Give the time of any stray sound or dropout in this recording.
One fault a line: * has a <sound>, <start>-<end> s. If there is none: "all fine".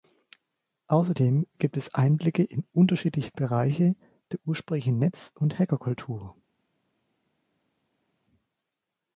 all fine